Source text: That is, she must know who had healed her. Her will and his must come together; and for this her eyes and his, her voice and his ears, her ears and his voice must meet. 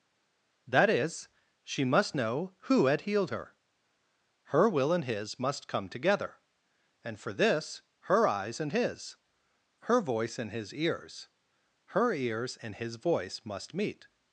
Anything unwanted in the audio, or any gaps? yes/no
no